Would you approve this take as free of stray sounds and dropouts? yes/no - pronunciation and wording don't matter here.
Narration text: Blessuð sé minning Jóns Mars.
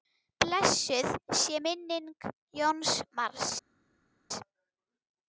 yes